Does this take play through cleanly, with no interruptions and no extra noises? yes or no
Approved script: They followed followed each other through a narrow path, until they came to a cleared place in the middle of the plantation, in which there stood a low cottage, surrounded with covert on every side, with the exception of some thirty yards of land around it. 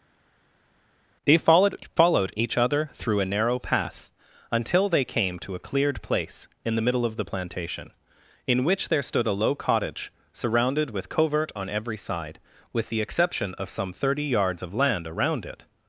yes